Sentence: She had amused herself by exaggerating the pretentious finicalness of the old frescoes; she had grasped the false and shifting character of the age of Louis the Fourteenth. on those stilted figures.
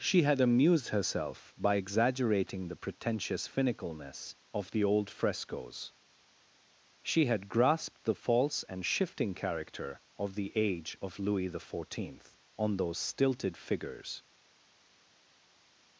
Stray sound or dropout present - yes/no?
no